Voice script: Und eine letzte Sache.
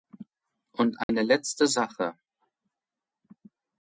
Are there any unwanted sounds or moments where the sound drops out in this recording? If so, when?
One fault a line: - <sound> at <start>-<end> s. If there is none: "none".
- dropout at 1.0-1.1 s